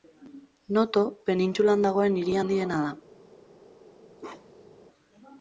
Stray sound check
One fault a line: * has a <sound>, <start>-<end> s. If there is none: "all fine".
* has a bark, 4.2-4.8 s